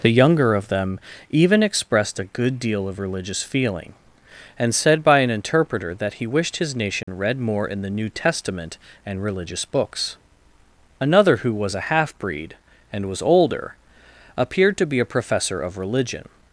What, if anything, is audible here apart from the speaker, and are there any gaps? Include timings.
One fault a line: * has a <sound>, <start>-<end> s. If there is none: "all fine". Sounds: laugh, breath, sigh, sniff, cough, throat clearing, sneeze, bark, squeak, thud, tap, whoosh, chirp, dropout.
* has a dropout, 7.0-7.1 s